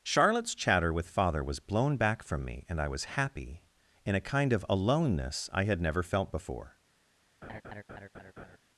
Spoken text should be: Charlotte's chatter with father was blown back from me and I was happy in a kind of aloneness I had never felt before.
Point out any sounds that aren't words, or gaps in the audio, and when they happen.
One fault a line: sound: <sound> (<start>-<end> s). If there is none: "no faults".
sound: laugh (7.4-8.6 s)